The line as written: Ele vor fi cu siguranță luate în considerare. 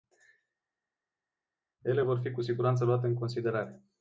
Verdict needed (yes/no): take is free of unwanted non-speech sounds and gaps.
yes